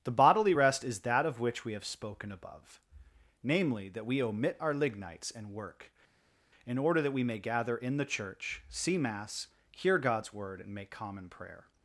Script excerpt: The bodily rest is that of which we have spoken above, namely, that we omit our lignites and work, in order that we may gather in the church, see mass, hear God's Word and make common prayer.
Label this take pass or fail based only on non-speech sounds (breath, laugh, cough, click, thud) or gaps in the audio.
pass